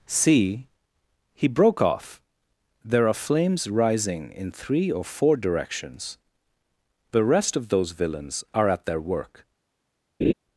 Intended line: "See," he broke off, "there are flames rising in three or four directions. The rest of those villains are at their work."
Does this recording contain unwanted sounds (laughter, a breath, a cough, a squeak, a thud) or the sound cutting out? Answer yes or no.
yes